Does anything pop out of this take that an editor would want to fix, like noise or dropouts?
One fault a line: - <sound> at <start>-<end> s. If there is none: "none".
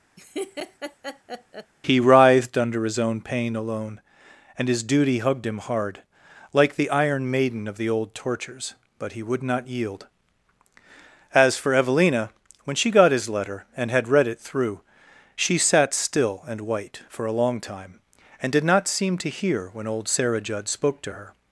- laugh at 0.2-1.7 s